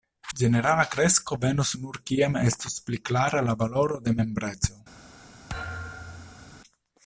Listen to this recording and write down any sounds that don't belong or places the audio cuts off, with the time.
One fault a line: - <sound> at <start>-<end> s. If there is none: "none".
- thud at 5.5-6.6 s